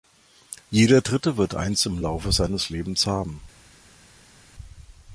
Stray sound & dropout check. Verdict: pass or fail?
pass